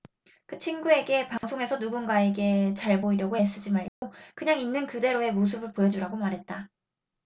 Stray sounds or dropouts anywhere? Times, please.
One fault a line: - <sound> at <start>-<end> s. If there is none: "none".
- dropout at 1.4-1.4 s
- dropout at 3.9-4.0 s